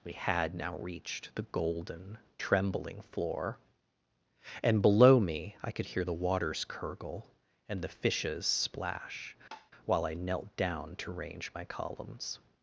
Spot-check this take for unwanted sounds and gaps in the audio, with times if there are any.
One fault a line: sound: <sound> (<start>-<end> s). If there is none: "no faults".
sound: tap (9.5-9.7 s)